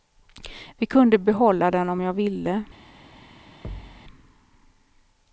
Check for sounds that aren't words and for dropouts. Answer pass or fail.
fail